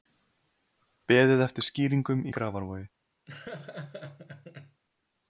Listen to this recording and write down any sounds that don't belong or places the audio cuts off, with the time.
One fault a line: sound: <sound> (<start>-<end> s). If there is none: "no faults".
sound: laugh (3.3-4.8 s)